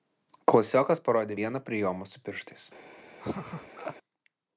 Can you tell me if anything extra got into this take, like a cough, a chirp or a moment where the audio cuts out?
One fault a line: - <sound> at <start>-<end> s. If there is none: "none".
- laugh at 3.2-4.0 s